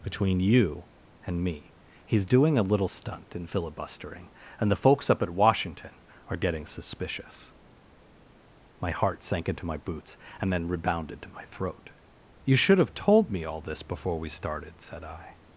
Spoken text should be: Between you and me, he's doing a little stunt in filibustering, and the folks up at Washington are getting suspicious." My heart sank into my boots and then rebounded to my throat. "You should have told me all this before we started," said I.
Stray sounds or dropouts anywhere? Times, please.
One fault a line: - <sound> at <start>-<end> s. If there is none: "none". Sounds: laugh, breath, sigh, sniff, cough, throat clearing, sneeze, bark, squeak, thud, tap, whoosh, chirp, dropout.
none